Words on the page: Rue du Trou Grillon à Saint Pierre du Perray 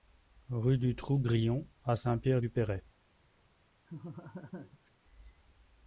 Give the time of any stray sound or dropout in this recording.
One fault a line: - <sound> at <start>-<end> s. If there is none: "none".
- laugh at 3.9-4.9 s